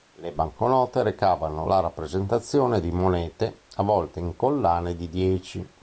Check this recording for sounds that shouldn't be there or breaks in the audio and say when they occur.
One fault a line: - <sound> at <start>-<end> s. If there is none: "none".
none